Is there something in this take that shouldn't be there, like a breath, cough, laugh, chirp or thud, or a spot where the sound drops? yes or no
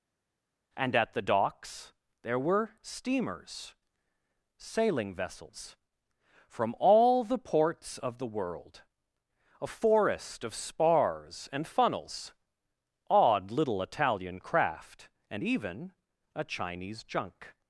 no